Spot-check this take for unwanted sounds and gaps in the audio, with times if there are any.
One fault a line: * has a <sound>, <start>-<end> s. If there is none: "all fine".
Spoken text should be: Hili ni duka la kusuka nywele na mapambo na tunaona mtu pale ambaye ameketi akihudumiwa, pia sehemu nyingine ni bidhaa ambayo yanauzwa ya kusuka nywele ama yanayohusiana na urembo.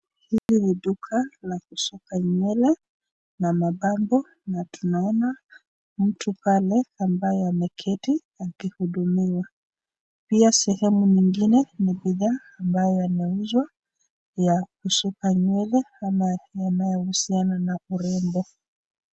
* has a dropout, 0.4-0.5 s